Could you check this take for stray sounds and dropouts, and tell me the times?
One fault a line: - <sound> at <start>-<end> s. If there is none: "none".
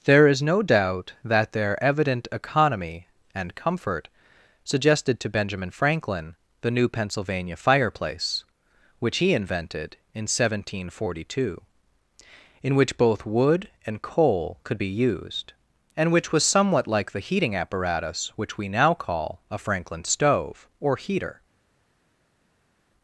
none